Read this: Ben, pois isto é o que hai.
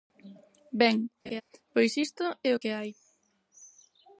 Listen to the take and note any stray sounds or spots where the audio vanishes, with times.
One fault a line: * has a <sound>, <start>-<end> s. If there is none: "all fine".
* has a laugh, 1.3-1.4 s